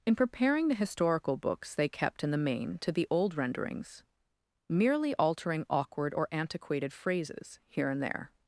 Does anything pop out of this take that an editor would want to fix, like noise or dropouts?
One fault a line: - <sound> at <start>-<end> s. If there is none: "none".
none